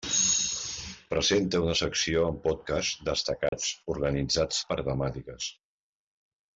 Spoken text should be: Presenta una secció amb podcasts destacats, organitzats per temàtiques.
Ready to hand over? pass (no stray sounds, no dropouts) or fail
fail